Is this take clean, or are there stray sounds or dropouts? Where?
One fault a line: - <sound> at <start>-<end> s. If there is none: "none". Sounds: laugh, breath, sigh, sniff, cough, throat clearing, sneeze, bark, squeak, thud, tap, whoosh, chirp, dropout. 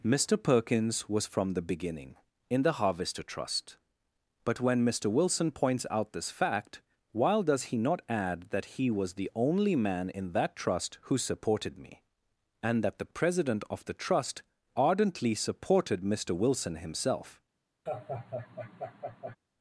- laugh at 17.9-19.4 s